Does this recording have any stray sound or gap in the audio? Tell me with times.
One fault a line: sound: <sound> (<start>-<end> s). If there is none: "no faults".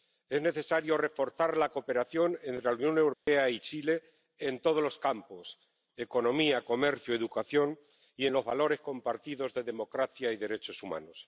sound: dropout (3.1-3.3 s)